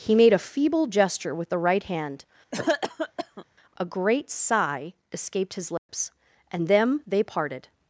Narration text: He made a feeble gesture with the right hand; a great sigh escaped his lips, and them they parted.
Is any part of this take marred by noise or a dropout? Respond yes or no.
yes